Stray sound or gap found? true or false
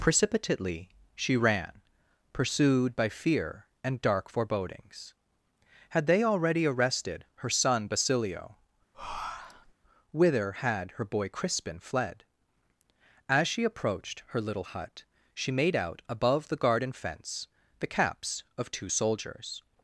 true